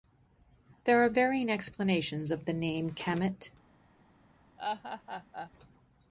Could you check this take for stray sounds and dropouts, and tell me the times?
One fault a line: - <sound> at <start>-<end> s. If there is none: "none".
- laugh at 4.6-5.5 s